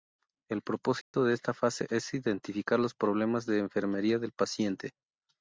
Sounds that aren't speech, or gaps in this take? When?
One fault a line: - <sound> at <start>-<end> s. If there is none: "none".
- dropout at 1.0-1.1 s